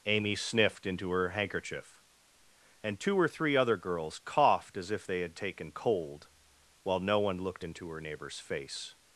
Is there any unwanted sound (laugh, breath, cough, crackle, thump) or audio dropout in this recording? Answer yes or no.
no